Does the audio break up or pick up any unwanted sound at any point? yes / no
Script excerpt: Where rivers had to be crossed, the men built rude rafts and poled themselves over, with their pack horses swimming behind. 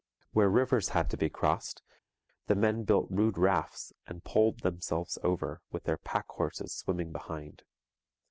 no